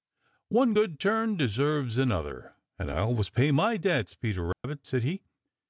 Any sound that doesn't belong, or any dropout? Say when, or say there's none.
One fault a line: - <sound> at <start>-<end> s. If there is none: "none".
- dropout at 4.5-4.6 s